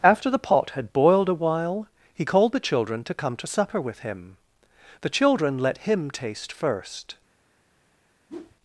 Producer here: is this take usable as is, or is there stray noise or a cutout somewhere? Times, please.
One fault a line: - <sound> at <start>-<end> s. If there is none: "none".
- whoosh at 8.3-8.6 s